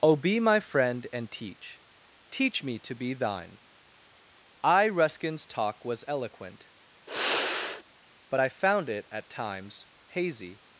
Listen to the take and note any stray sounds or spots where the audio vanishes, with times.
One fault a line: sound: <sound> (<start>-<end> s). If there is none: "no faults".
sound: sigh (7.1-7.8 s)